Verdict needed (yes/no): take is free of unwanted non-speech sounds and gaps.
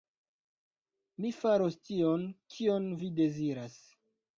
yes